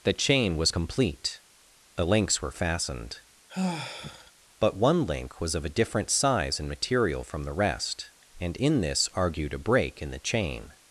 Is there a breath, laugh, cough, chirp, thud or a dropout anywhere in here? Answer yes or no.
yes